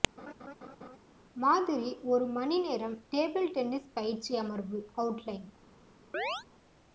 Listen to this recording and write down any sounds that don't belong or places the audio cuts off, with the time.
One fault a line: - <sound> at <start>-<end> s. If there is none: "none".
- laugh at 0.2-1.0 s
- chirp at 6.1-6.4 s